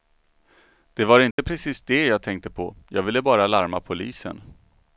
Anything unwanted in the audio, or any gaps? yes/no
yes